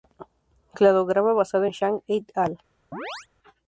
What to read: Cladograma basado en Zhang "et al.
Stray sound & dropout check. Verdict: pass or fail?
fail